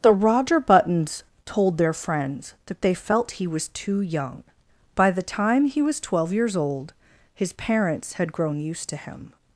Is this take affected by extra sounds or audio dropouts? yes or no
no